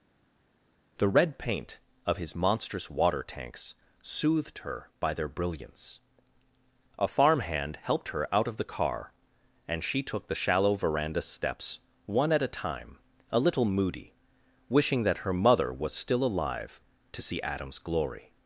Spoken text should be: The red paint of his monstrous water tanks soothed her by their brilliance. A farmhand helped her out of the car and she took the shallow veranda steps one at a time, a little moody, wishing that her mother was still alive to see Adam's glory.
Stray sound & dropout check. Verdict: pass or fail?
pass